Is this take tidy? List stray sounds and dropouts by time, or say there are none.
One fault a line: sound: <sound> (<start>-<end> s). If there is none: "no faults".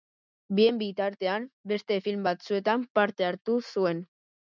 no faults